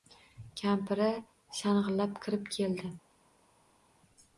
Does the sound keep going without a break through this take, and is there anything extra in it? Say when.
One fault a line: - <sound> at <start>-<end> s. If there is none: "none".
none